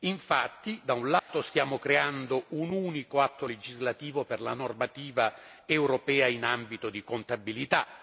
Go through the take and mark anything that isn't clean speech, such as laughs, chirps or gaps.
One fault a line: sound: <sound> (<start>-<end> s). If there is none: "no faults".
sound: dropout (1.2-1.3 s)